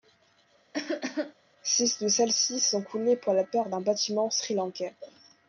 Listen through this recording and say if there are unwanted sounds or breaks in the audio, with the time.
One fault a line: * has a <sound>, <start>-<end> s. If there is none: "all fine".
* has a cough, 0.7-1.3 s